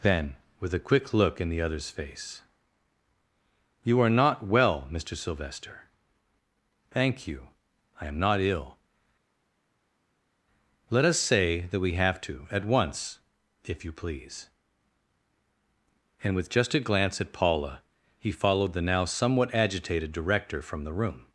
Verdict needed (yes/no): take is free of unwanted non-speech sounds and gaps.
yes